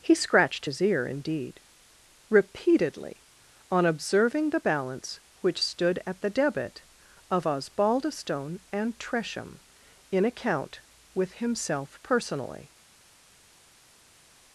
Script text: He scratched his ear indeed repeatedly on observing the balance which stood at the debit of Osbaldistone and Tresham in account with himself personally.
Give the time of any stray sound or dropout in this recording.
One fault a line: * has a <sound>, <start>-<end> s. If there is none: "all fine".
all fine